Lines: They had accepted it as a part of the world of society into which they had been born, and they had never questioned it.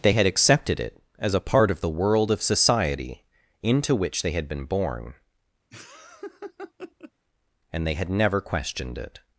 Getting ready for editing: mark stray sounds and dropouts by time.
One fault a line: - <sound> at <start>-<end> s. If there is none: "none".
- laugh at 5.7-7.1 s